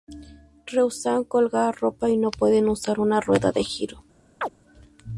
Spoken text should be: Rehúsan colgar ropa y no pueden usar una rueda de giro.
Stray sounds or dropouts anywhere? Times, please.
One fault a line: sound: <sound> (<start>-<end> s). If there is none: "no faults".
sound: chirp (4.4-4.5 s)